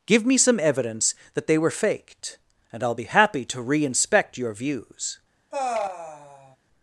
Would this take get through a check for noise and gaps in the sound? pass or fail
fail